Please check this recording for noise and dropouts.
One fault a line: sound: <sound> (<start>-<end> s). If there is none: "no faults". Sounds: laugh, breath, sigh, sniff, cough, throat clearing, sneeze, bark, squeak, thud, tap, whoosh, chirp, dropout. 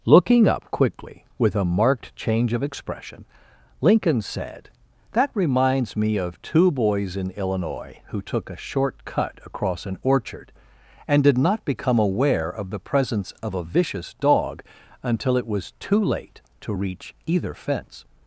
no faults